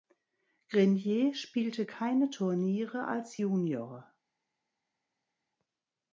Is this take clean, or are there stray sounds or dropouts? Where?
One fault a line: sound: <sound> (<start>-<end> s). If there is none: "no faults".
no faults